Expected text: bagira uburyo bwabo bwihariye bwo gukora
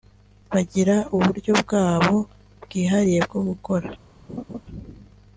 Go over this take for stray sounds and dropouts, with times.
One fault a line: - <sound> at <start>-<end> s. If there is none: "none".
- laugh at 4.3-4.6 s